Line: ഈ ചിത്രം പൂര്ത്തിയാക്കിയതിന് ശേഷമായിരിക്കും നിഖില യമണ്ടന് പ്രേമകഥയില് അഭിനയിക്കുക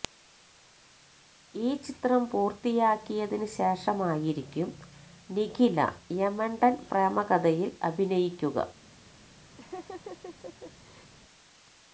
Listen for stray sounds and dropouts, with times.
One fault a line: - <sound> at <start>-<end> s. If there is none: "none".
- laugh at 9.6-11.1 s